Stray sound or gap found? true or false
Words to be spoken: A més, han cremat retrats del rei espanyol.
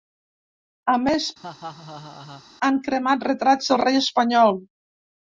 true